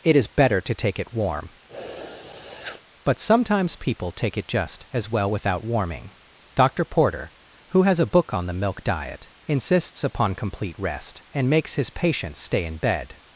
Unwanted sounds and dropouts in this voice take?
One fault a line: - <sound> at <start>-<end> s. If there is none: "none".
- sniff at 1.7-2.8 s